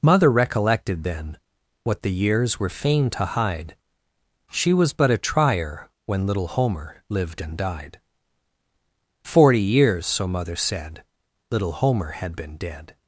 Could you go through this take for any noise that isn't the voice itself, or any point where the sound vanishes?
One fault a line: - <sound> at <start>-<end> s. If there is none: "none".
none